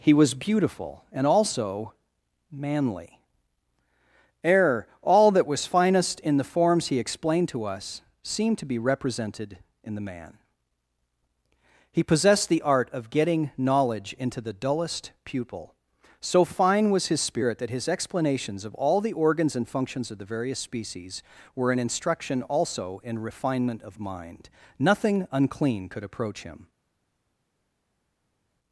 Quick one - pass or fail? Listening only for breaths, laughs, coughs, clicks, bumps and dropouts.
pass